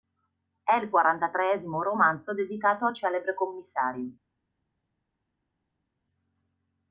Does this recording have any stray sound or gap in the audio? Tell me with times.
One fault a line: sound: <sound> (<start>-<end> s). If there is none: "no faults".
no faults